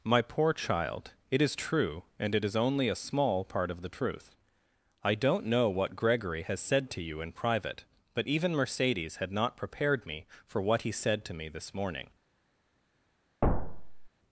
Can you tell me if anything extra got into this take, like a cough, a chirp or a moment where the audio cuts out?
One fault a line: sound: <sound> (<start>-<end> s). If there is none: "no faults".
sound: thud (13.4-14.1 s)